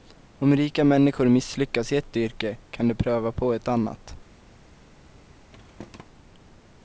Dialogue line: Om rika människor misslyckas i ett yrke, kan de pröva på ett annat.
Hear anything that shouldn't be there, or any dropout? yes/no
yes